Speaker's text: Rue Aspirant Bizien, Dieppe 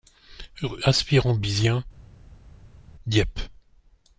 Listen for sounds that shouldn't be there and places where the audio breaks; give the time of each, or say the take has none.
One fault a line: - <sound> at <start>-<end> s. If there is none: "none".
none